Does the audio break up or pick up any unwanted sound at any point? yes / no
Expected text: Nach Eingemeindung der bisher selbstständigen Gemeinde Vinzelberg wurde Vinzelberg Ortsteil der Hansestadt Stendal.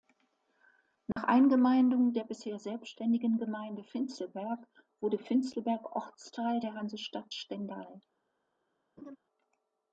yes